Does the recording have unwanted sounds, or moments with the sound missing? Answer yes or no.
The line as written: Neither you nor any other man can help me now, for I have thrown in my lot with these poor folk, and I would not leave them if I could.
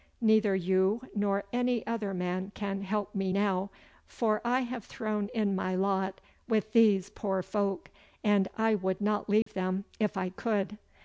yes